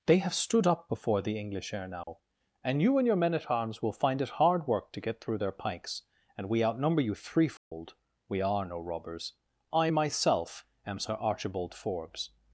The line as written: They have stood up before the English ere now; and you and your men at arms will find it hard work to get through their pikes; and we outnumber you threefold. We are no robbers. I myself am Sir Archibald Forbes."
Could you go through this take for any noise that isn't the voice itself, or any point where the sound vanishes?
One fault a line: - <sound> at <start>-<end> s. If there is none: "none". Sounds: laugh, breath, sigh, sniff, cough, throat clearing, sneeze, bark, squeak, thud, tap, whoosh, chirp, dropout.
- dropout at 2.0-2.1 s
- dropout at 7.6-7.7 s